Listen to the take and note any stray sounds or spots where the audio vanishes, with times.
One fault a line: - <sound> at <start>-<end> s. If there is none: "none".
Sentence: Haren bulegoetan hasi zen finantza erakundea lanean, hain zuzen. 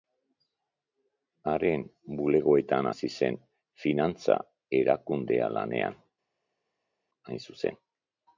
none